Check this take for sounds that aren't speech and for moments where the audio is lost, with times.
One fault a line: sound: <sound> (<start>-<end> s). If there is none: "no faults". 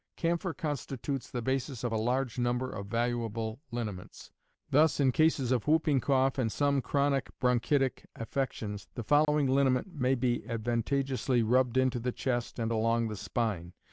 sound: dropout (9.2-9.3 s)